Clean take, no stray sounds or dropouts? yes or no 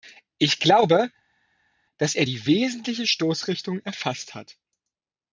yes